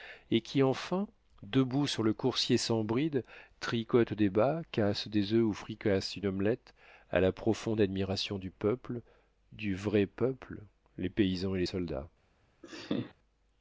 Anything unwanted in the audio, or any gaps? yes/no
yes